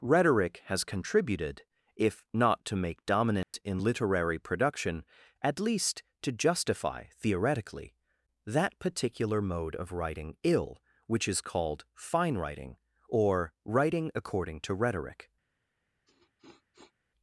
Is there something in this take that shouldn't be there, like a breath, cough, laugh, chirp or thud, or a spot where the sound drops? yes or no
yes